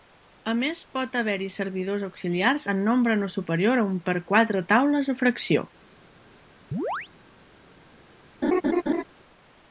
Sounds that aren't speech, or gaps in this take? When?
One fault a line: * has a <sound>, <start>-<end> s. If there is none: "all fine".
* has a chirp, 6.7-7.1 s
* has a laugh, 8.4-9.0 s